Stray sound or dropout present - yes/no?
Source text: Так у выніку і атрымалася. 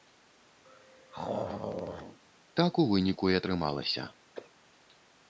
yes